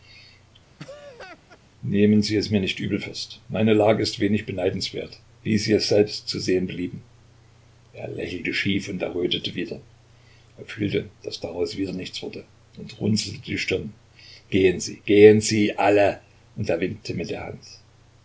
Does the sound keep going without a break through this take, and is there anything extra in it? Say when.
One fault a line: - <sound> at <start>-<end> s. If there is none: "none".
- laugh at 0.8-1.6 s